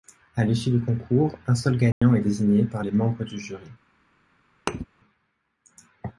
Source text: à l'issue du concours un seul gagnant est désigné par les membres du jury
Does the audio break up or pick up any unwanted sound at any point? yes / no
yes